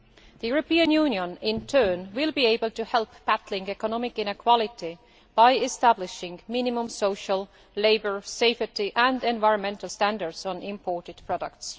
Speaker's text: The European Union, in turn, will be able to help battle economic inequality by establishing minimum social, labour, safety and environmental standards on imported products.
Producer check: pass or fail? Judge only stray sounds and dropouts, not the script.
pass